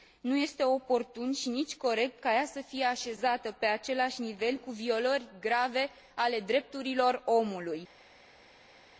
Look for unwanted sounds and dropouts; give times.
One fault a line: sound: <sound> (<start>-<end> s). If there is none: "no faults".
no faults